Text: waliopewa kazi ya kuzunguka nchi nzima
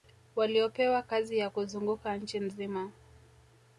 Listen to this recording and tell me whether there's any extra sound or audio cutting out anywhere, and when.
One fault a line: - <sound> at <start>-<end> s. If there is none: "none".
none